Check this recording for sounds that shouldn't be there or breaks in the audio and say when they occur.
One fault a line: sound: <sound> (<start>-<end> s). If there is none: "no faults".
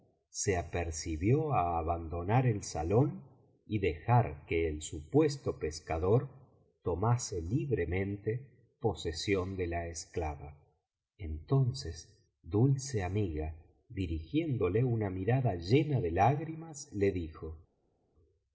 no faults